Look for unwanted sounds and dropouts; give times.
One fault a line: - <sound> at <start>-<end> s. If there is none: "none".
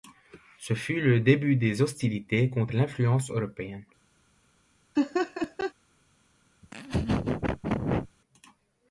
- laugh at 5.0-5.7 s
- laugh at 6.6-8.1 s